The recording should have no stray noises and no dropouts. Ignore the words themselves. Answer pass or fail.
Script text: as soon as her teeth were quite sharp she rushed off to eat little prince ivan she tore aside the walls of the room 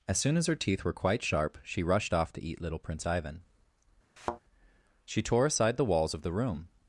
fail